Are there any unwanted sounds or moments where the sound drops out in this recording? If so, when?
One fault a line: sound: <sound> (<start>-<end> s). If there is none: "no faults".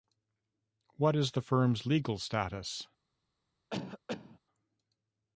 sound: cough (3.7-4.4 s)